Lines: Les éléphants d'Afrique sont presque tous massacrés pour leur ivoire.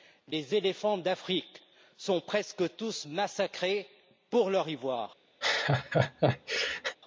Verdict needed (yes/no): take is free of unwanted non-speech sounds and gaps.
no